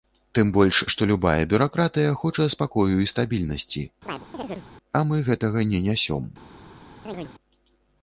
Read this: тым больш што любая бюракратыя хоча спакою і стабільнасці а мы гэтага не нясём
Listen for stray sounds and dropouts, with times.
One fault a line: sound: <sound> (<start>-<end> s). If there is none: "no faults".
sound: chirp (4.1-4.7 s)
sound: chirp (7.1-7.3 s)